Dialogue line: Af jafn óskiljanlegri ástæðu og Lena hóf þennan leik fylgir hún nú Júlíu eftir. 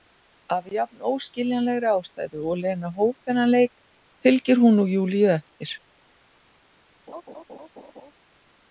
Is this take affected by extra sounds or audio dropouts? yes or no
yes